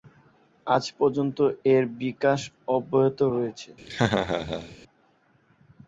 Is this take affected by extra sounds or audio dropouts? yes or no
yes